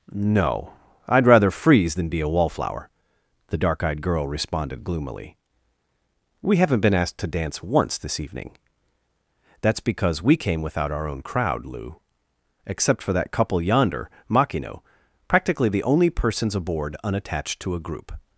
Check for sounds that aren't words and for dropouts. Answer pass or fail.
pass